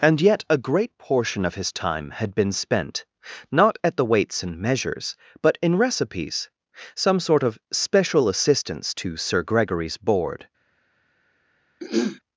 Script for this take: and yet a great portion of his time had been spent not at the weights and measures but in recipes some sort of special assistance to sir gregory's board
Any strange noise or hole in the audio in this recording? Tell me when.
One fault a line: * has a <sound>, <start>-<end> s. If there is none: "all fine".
* has a throat clearing, 11.8-12.2 s